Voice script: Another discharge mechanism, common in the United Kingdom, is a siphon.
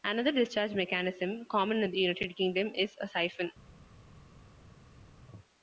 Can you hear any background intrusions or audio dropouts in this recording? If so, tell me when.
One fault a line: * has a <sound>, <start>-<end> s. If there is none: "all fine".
all fine